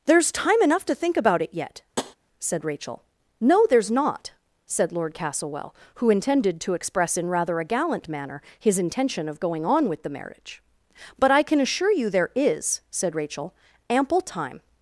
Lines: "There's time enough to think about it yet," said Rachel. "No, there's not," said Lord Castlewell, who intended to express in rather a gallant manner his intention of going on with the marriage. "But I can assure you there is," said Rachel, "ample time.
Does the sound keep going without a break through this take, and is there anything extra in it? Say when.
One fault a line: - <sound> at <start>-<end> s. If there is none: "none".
- tap at 2.0-2.2 s